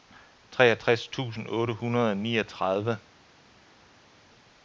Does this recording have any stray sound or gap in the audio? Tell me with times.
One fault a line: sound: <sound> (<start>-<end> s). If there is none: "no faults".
no faults